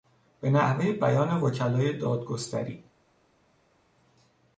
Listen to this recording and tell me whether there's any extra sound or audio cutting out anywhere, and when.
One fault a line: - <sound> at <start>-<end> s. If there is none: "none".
none